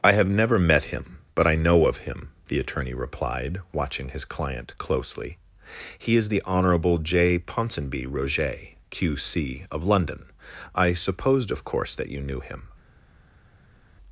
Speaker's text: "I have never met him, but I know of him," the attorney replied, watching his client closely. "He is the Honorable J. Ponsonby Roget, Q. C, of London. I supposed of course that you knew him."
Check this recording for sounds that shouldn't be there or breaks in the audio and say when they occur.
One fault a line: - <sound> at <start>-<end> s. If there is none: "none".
none